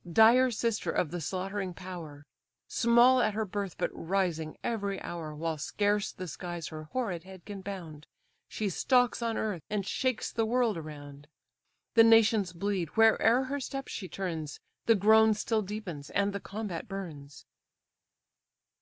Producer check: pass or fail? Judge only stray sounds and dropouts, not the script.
pass